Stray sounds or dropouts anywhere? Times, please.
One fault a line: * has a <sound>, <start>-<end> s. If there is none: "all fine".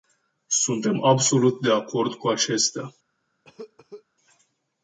* has a cough, 3.4-4.0 s